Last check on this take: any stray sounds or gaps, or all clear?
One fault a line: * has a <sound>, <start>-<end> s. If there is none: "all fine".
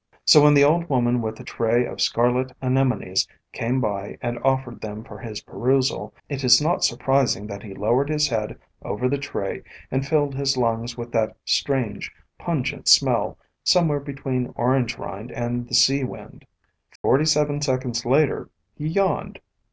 * has a dropout, 17.0-17.0 s